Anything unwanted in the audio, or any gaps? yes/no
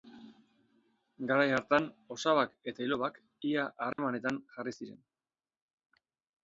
yes